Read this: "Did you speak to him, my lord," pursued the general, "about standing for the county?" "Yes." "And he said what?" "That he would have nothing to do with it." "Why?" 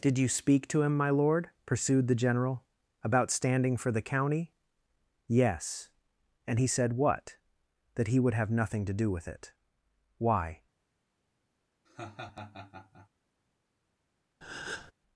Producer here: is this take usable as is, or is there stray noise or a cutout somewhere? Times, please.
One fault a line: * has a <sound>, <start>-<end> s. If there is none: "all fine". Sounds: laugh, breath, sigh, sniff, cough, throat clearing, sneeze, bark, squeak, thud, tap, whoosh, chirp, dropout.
* has a laugh, 11.9-13.1 s
* has a breath, 14.4-14.9 s